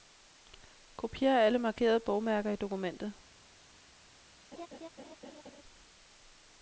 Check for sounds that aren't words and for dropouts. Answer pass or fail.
fail